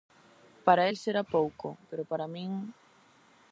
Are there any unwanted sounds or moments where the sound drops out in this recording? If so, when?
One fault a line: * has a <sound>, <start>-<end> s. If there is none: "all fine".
all fine